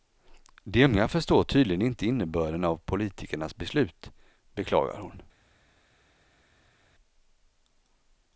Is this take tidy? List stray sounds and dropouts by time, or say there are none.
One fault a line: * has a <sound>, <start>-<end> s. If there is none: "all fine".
all fine